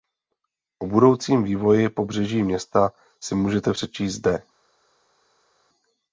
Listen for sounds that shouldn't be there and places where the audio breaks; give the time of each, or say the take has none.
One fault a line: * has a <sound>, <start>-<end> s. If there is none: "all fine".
all fine